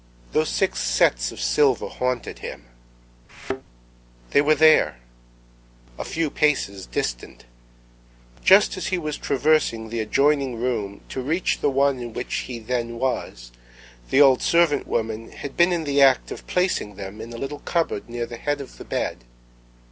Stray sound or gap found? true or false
true